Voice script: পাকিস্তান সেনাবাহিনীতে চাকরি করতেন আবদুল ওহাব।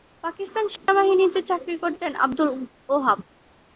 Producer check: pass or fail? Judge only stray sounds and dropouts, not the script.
fail